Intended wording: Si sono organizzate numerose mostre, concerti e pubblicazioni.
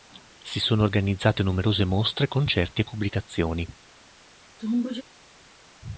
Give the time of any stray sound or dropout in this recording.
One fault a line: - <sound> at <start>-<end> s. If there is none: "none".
- sneeze at 4.6-5.0 s